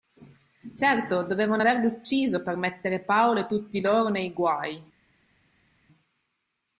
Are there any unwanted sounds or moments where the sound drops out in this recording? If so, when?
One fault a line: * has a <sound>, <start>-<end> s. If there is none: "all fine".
all fine